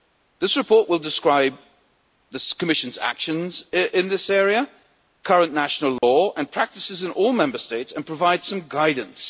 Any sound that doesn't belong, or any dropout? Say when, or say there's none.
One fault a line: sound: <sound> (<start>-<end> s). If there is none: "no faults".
sound: dropout (6.0-6.0 s)